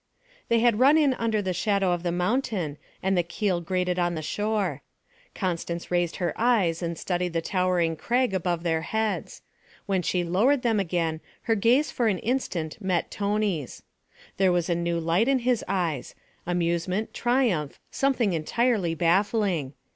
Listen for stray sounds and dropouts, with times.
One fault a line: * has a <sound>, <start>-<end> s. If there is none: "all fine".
all fine